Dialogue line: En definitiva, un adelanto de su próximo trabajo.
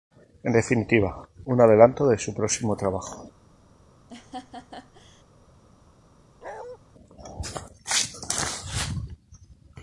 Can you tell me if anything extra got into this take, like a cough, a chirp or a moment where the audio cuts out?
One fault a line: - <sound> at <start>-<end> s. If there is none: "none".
- laugh at 4.1-5.2 s
- bark at 6.4-6.8 s